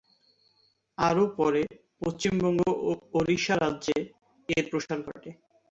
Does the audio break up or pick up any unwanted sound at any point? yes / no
no